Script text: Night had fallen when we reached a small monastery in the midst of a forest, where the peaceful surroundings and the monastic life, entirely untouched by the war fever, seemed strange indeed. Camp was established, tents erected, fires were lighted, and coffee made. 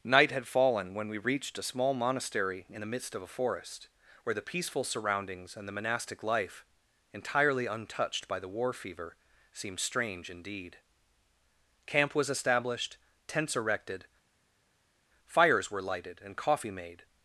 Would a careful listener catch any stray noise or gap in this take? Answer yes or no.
no